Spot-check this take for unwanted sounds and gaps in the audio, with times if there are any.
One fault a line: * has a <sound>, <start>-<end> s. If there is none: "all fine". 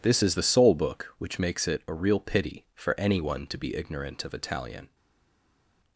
all fine